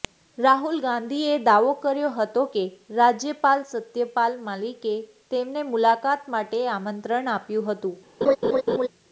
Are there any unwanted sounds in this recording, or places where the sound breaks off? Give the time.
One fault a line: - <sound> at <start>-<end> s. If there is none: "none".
- laugh at 8.2-8.9 s